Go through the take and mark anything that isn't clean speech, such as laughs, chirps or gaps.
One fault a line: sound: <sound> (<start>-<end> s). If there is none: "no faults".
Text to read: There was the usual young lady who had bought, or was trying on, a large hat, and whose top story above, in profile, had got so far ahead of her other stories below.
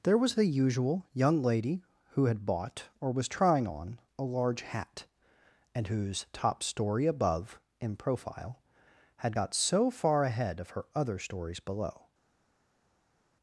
no faults